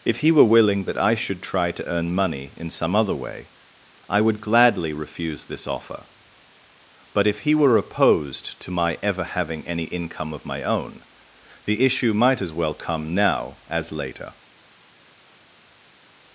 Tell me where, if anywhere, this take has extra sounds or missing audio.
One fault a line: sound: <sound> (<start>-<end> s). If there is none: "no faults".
no faults